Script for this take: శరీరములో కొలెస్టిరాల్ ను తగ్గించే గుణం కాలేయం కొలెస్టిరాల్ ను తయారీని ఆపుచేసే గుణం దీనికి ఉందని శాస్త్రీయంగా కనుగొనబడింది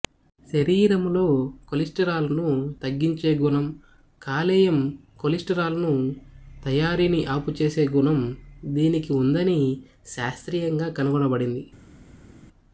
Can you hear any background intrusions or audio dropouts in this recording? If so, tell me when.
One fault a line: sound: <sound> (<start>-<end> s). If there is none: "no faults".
no faults